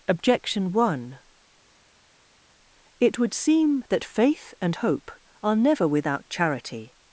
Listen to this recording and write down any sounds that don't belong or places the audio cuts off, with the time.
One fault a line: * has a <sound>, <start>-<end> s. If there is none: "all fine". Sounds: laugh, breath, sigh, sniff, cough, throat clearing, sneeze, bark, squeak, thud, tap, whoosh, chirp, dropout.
all fine